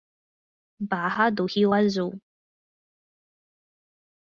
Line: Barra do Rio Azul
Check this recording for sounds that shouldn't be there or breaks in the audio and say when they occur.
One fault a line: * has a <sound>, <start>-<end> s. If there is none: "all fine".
all fine